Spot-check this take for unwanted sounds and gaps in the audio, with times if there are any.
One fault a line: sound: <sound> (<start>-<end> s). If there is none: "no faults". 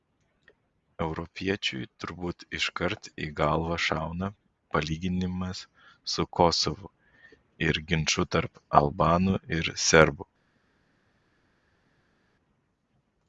no faults